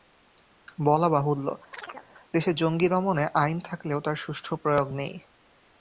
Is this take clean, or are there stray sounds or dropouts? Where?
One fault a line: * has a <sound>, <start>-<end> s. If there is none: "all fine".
* has a chirp, 1.7-2.1 s